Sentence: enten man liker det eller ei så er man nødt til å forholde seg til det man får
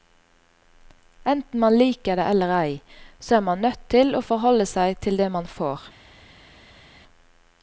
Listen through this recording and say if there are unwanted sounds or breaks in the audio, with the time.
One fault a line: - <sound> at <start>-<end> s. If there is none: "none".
none